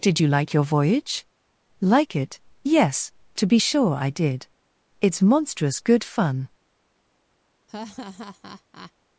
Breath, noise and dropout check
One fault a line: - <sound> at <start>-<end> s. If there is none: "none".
- laugh at 7.7-8.9 s